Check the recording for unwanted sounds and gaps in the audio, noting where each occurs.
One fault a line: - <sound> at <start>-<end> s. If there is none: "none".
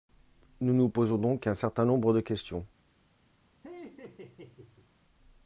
- laugh at 3.6-4.9 s